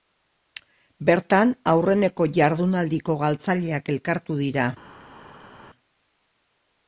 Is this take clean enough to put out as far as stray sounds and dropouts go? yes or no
yes